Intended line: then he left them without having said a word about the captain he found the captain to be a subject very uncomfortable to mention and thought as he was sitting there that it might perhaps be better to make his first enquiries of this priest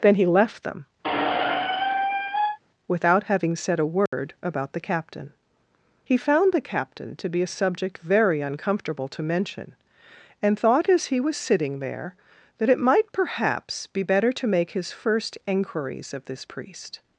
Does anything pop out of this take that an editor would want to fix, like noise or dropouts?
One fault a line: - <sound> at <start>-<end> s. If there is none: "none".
- squeak at 1.0-2.6 s
- dropout at 4.1-4.1 s